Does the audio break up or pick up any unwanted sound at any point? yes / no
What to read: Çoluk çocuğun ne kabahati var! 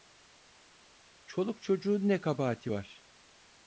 no